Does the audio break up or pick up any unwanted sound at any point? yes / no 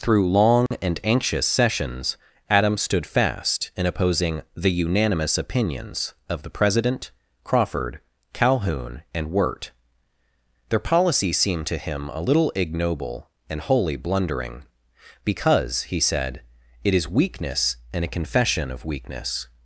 yes